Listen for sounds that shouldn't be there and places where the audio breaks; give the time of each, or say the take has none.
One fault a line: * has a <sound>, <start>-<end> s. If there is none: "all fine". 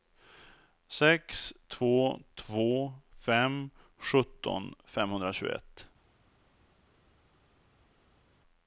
all fine